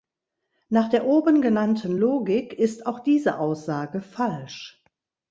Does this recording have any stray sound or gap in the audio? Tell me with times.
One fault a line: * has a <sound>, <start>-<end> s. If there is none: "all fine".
all fine